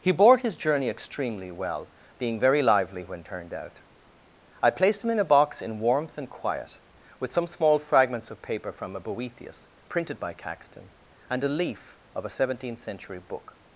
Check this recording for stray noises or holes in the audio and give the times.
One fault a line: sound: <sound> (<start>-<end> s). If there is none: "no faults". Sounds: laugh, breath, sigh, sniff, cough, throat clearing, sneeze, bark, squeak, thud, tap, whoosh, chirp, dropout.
no faults